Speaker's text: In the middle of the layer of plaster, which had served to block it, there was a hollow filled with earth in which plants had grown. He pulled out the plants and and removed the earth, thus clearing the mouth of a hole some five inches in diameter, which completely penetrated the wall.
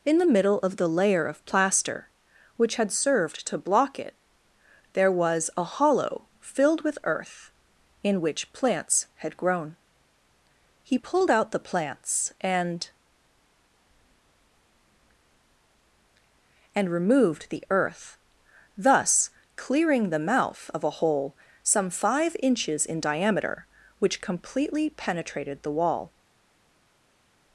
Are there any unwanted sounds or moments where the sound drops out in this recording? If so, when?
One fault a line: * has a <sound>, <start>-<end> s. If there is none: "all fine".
all fine